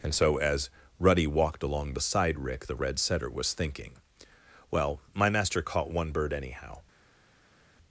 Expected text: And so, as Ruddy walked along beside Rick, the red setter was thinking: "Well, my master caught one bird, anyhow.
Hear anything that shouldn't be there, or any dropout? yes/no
no